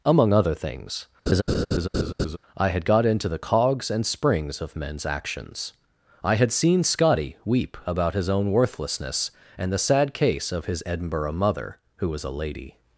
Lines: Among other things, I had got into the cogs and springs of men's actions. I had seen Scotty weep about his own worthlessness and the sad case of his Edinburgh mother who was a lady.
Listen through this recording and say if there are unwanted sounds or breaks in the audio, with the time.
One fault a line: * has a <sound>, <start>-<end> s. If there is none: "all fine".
* has a laugh, 1.3-2.4 s